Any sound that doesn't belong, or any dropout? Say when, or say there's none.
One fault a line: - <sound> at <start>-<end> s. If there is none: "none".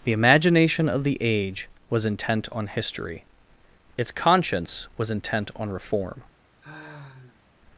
- sigh at 6.6-7.4 s